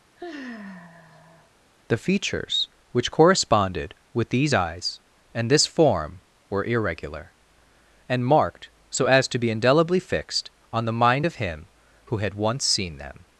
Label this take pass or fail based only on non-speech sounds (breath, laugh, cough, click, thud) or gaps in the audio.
fail